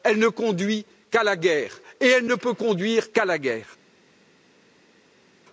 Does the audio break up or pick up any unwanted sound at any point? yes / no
no